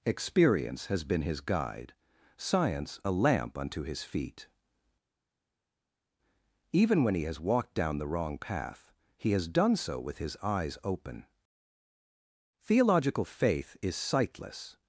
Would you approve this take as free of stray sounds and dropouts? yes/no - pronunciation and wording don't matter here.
yes